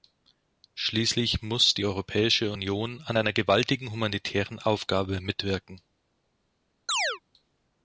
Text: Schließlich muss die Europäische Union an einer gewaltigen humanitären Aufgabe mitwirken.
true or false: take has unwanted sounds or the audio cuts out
true